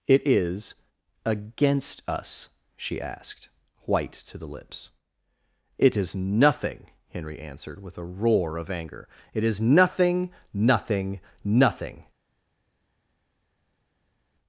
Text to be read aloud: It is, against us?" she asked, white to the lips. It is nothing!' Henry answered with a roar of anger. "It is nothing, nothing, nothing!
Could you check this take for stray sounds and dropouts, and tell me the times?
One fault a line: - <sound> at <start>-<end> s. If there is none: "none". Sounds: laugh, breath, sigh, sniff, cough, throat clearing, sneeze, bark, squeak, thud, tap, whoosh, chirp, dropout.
none